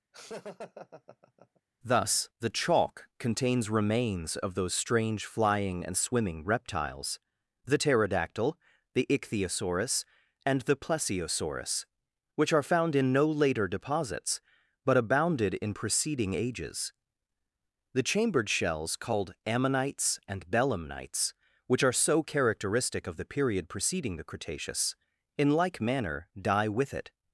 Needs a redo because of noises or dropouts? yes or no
yes